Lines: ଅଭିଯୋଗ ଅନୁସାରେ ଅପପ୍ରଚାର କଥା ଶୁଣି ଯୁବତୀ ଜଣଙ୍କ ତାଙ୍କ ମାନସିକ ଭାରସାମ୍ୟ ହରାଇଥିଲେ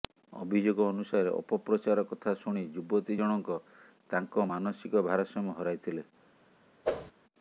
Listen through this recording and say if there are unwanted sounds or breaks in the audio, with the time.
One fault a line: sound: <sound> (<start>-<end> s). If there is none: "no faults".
sound: whoosh (6.8-7.1 s)